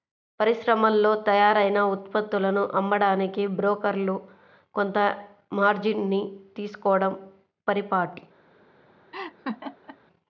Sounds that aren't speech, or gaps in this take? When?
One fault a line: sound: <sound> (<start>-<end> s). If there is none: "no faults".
sound: laugh (9.1-10.0 s)